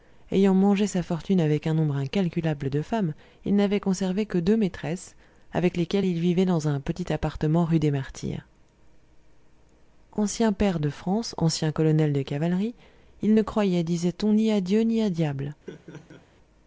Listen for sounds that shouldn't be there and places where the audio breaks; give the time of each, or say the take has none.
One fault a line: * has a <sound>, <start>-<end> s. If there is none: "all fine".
* has a laugh, 15.7-16.2 s